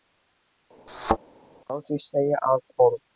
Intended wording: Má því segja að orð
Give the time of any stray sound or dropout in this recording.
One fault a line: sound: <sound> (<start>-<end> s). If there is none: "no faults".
sound: thud (0.9-1.2 s)